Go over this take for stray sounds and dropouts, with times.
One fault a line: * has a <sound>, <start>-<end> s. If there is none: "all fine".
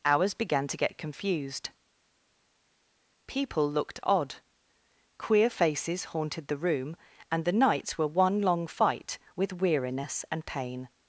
all fine